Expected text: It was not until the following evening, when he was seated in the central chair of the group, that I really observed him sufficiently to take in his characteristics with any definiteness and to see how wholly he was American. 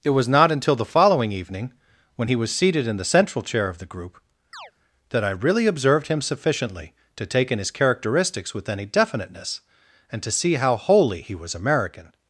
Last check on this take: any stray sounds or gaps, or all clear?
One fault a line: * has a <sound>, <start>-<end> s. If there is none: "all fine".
* has a chirp, 4.5-4.7 s